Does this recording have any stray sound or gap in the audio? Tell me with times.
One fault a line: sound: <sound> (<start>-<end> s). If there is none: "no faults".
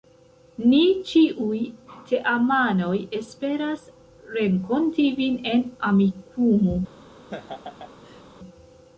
sound: laugh (7.3-8.2 s)